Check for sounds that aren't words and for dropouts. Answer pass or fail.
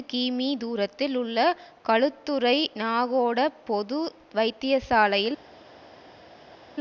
pass